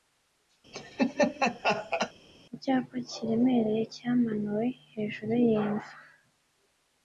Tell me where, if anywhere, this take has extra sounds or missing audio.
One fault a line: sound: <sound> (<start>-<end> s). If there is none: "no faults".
sound: laugh (0.7-2.1 s)